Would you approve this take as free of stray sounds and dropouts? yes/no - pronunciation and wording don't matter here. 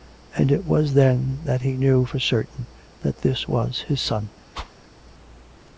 no